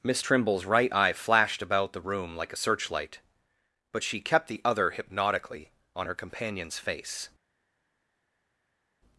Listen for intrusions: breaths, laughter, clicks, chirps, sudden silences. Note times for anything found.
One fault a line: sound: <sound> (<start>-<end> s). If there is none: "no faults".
no faults